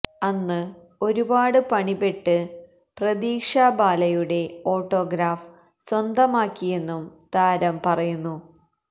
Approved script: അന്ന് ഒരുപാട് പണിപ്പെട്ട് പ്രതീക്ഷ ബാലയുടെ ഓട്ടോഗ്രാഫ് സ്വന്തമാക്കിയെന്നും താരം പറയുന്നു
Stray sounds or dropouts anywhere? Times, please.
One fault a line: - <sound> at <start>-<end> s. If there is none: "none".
none